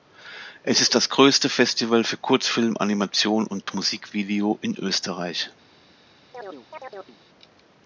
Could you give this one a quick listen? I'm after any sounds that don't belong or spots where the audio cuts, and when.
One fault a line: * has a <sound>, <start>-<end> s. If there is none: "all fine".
* has a dropout, 3.6-3.7 s
* has a chirp, 6.3-7.2 s